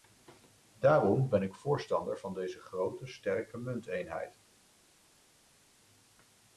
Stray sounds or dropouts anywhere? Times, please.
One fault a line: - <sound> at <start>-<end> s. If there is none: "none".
none